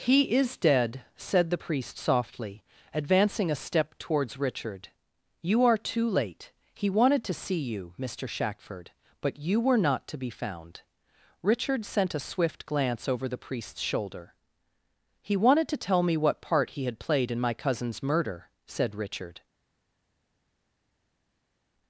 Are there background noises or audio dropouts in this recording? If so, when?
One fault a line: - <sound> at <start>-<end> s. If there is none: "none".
none